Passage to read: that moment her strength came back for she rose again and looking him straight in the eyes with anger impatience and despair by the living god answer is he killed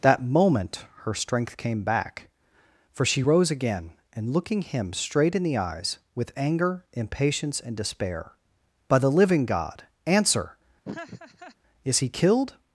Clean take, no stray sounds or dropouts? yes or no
no